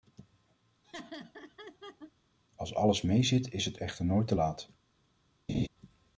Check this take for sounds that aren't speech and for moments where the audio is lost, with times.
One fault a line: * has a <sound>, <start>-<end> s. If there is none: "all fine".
* has a laugh, 0.8-2.1 s
* has a laugh, 5.5-5.7 s